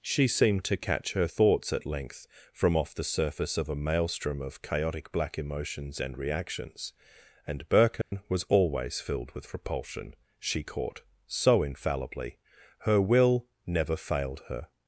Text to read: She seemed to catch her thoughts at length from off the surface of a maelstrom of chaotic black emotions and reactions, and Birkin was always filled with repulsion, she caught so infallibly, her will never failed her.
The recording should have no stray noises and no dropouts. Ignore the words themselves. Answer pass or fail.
fail